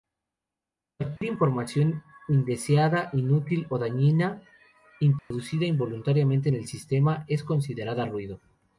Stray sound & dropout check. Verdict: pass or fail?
fail